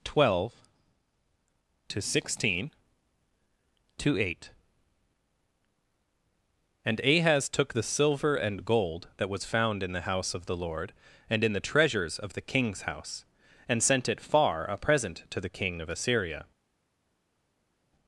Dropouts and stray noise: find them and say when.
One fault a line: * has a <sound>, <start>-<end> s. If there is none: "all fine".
all fine